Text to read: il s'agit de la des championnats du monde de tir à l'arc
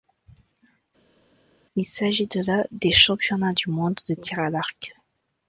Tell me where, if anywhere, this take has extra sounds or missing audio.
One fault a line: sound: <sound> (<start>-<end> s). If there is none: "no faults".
no faults